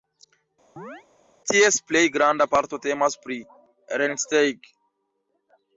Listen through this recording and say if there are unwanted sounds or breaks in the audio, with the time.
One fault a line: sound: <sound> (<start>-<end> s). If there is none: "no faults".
sound: chirp (0.8-1.0 s)